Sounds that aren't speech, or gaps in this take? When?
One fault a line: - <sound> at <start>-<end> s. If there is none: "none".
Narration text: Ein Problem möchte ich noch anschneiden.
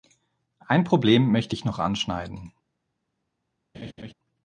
- laugh at 3.7-4.1 s